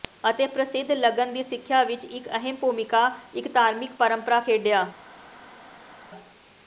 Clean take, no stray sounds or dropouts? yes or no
yes